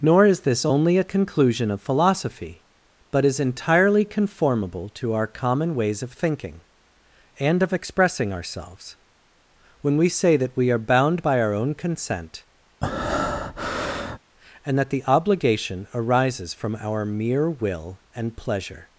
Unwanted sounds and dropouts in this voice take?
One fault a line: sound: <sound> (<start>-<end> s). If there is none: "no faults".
sound: breath (12.8-14.2 s)